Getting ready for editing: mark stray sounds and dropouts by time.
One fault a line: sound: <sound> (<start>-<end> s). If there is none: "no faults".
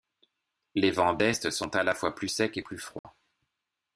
sound: dropout (3.0-3.0 s)